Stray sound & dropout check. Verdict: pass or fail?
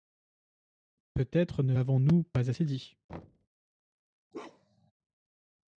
fail